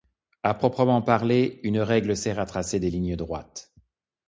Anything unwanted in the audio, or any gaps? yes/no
no